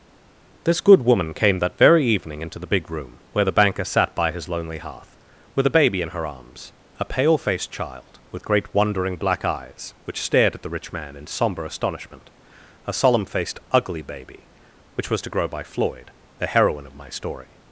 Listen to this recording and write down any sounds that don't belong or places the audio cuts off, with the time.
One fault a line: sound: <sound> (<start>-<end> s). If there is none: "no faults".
no faults